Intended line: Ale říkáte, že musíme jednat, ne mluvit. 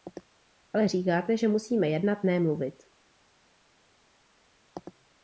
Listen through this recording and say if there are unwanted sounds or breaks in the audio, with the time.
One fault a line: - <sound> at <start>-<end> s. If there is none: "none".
none